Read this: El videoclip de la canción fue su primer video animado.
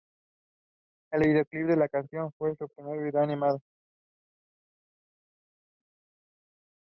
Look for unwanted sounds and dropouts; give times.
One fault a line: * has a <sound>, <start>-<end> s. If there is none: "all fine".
all fine